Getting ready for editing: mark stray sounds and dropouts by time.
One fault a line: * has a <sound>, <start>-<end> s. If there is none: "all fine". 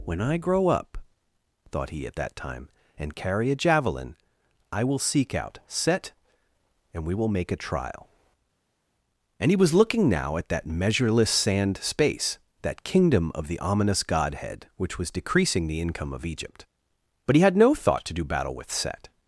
all fine